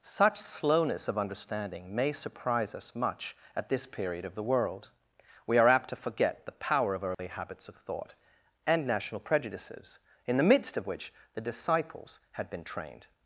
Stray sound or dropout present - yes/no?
yes